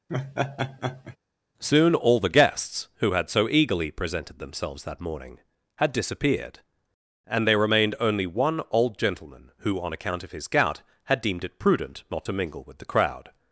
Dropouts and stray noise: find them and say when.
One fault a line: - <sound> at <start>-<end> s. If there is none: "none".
- laugh at 0.1-1.2 s